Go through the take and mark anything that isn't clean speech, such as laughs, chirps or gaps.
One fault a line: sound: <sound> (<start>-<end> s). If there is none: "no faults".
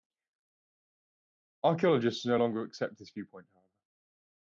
no faults